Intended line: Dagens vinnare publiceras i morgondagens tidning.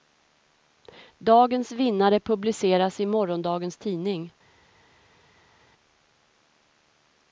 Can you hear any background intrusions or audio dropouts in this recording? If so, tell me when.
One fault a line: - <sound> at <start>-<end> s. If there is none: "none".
none